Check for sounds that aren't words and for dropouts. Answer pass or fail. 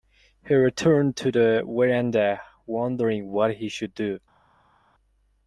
pass